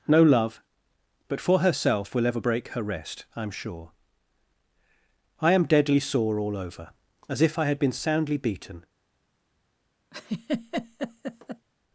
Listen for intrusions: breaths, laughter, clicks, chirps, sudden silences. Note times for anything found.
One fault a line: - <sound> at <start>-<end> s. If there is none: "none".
- laugh at 10.1-11.7 s